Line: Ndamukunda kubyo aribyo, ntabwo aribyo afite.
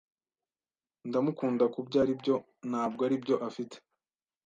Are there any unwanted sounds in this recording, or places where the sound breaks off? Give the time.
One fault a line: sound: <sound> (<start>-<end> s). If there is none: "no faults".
no faults